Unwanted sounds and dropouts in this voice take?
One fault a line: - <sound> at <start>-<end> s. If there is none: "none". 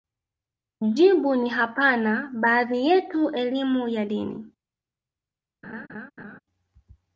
- laugh at 5.6-6.4 s